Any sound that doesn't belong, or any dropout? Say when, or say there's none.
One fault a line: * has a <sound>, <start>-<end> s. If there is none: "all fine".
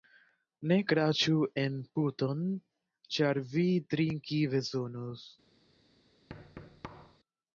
* has a thud, 6.3-7.2 s